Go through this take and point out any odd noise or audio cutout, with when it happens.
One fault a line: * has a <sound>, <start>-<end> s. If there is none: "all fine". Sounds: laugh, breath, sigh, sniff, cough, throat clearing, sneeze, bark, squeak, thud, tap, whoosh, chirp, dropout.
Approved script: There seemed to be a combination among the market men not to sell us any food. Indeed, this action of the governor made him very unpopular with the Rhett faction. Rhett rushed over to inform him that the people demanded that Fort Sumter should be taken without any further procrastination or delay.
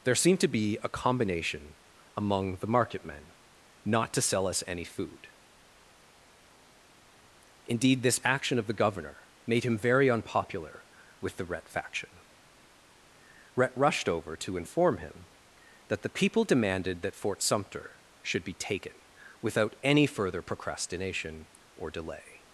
all fine